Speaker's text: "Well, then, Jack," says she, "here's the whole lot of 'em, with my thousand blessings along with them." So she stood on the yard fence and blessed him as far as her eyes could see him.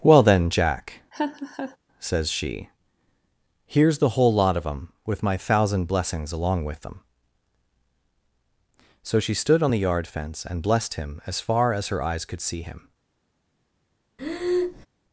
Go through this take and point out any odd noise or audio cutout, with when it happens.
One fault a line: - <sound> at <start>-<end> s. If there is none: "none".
- laugh at 1.1-1.8 s
- breath at 14.2-14.9 s